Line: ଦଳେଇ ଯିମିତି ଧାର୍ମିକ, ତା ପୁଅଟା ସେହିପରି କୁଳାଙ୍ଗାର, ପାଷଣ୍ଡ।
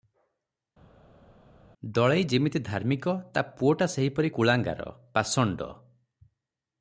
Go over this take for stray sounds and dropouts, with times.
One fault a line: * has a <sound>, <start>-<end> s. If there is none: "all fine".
all fine